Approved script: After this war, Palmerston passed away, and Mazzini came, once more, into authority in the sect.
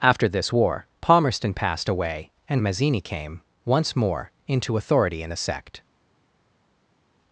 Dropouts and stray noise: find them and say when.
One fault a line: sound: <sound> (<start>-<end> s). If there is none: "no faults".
no faults